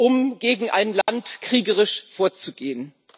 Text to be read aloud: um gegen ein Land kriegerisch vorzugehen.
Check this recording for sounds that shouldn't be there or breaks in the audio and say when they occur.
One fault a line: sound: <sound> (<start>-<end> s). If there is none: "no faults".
sound: dropout (1.0-1.1 s)